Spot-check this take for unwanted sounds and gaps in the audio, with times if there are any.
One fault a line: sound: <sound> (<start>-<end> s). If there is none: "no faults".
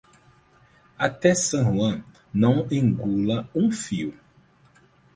no faults